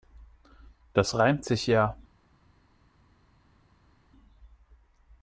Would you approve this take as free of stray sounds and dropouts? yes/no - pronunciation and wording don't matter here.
yes